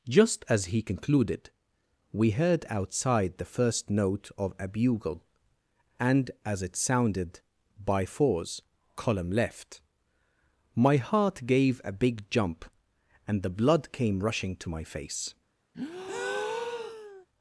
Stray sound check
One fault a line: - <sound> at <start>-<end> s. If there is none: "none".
- breath at 15.7-17.3 s